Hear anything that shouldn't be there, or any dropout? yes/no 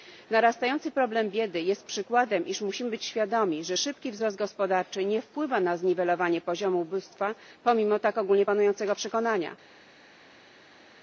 no